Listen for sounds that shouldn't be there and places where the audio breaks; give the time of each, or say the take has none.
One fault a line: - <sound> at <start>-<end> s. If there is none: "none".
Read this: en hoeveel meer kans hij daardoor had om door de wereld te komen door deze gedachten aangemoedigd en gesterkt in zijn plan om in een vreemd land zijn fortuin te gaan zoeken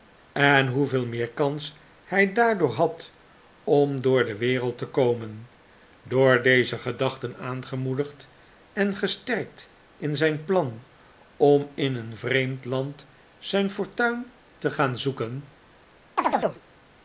- chirp at 16.2-16.6 s